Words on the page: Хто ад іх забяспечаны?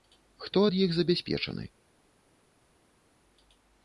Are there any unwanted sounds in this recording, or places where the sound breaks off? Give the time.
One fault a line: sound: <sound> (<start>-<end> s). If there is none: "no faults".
no faults